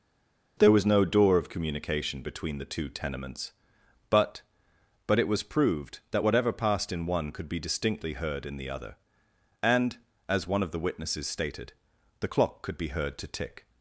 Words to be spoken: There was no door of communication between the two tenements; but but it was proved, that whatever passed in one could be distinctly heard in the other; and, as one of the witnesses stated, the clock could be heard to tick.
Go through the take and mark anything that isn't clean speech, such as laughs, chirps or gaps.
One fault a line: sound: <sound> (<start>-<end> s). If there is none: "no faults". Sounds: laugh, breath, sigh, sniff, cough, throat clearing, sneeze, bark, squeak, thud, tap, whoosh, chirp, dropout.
no faults